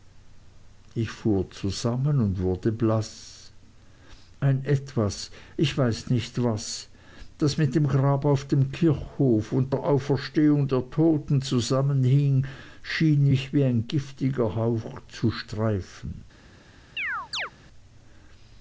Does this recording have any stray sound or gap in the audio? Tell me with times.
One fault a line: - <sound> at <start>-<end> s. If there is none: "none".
- chirp at 17.0-17.5 s